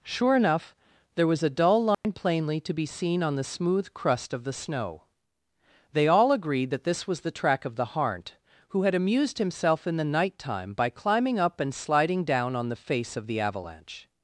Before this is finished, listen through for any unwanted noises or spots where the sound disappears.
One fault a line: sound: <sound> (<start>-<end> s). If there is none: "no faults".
sound: dropout (1.9-2.0 s)